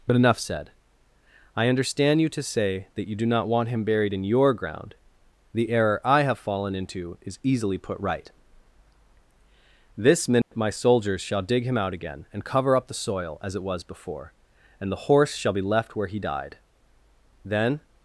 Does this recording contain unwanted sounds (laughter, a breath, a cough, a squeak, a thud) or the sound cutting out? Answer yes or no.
yes